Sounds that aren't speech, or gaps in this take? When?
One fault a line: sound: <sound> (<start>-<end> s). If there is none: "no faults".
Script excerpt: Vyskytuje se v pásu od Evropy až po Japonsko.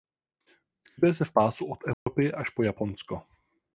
sound: dropout (1.9-2.1 s)